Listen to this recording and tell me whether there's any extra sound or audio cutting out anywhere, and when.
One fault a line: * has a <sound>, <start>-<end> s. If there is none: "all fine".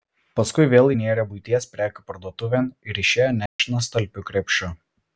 * has a dropout, 3.5-3.6 s